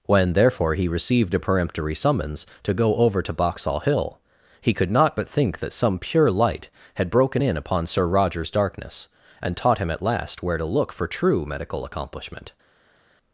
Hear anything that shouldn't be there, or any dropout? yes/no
no